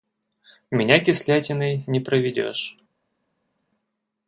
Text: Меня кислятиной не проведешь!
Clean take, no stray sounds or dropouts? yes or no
yes